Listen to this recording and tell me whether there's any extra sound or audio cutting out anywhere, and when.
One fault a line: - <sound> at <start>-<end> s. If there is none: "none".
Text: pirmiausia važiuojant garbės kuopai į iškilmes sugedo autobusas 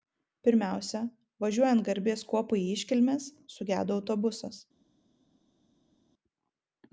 none